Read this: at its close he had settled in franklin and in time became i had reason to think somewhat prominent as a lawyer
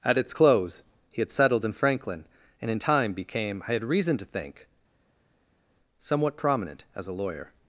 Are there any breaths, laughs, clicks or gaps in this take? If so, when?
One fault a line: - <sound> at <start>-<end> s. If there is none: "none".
none